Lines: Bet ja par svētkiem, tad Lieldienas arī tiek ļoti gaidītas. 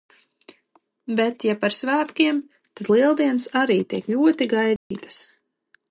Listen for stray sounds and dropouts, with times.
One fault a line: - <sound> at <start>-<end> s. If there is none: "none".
- dropout at 4.8-4.9 s